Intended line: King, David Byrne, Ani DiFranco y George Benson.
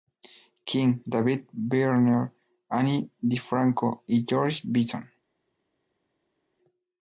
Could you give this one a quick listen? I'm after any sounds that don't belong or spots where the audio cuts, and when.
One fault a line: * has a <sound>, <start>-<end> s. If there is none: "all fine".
all fine